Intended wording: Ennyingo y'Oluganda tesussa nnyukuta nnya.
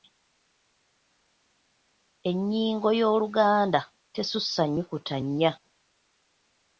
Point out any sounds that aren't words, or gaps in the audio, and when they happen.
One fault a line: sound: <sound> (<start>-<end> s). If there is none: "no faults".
no faults